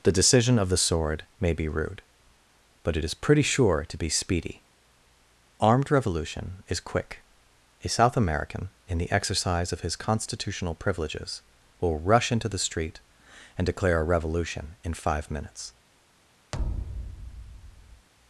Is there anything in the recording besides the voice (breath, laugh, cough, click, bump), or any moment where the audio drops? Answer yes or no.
yes